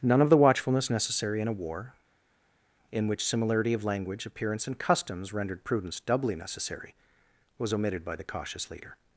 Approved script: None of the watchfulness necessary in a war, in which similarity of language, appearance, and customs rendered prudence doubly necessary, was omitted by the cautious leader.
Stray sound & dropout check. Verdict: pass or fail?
pass